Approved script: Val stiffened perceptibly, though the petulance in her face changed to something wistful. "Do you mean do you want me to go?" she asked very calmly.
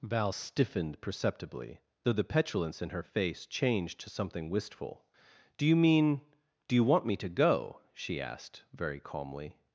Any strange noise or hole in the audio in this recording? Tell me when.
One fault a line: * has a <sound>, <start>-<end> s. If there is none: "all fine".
all fine